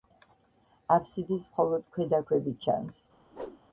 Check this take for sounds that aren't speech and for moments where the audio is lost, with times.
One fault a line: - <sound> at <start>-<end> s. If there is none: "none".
- whoosh at 3.3-3.6 s